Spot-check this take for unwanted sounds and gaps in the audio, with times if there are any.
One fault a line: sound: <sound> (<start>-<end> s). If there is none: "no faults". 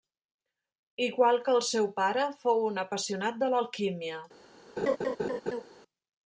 sound: laugh (4.8-5.6 s)